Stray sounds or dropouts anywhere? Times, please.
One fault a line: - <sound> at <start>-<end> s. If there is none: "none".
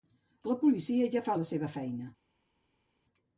none